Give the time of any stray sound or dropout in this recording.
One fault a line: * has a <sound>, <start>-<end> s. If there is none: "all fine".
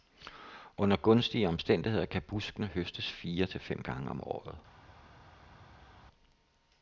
all fine